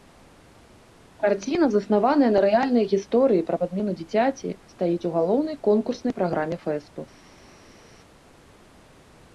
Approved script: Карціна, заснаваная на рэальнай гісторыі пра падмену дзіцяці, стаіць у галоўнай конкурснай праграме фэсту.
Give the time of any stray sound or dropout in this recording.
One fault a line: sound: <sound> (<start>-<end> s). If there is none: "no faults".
no faults